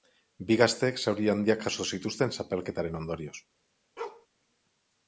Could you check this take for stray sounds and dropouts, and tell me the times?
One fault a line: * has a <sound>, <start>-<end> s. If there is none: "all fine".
* has a bark, 4.0-4.3 s